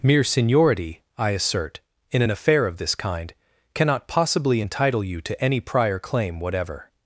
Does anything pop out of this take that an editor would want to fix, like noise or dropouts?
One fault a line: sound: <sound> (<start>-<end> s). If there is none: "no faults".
no faults